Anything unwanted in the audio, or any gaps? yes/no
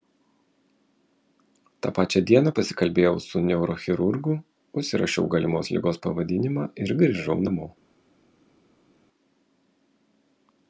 no